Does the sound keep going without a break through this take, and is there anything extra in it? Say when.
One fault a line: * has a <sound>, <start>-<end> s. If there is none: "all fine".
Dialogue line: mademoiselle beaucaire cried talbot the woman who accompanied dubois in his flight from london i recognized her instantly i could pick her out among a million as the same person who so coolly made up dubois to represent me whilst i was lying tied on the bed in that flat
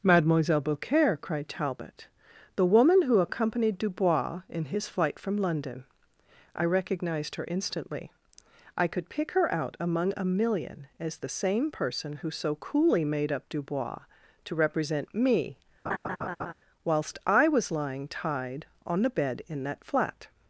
* has a laugh, 15.9-16.5 s